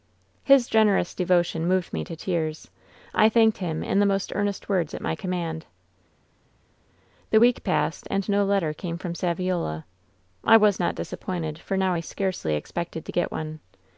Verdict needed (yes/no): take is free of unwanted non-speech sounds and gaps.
yes